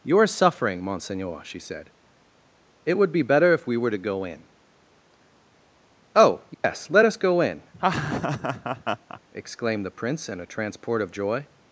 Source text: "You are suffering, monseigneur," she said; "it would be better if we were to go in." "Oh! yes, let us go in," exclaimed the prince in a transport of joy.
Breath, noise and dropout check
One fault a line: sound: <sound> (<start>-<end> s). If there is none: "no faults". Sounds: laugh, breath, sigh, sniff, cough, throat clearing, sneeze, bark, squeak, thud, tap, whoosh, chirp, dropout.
sound: dropout (6.5-6.6 s)
sound: laugh (7.7-9.2 s)